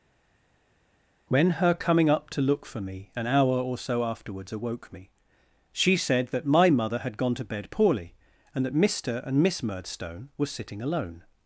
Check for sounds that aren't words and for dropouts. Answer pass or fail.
pass